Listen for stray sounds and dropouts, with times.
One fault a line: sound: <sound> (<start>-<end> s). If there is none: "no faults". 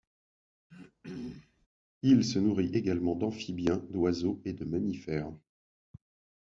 sound: throat clearing (0.7-1.7 s)